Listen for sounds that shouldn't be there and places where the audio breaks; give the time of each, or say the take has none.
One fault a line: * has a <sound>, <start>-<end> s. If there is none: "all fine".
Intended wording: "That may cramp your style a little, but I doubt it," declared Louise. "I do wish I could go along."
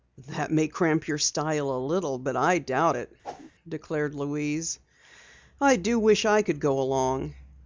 * has a whoosh, 3.2-3.5 s